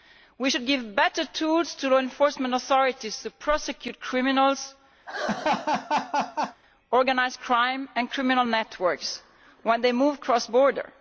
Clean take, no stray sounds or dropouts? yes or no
no